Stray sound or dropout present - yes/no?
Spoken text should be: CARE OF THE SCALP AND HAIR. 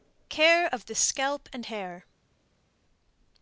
no